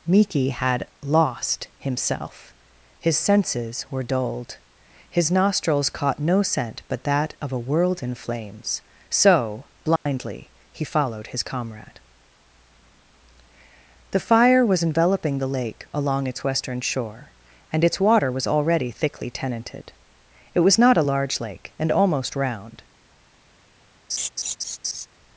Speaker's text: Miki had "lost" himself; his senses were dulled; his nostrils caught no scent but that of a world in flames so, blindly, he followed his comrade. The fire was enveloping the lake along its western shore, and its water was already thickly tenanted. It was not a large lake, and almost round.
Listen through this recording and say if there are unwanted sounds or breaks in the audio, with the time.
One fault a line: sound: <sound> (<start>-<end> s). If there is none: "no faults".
sound: dropout (10.0-10.1 s)
sound: laugh (24.1-25.1 s)